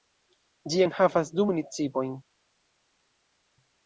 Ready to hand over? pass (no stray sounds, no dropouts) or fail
pass